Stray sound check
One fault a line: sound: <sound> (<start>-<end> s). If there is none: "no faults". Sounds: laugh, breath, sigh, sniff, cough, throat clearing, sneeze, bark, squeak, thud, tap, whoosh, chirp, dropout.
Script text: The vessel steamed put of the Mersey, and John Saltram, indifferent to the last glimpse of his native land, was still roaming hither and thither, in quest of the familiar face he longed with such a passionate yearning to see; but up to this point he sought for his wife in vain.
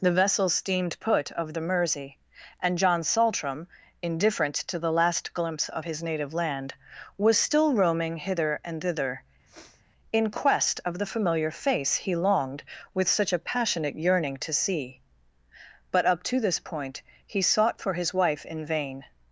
sound: sniff (9.5-9.8 s)